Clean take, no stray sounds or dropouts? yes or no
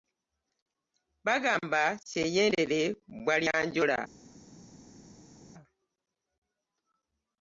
yes